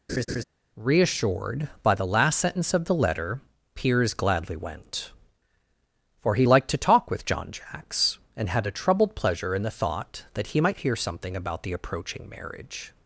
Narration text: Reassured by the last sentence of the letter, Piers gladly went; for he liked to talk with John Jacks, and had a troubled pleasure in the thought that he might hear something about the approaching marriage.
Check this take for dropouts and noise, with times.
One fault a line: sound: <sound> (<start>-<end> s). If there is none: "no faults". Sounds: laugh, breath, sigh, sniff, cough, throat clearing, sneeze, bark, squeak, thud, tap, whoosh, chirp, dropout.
sound: laugh (0.1-0.4 s)